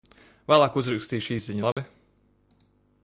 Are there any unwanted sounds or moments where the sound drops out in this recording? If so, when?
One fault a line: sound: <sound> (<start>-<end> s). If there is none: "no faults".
sound: dropout (1.7-1.8 s)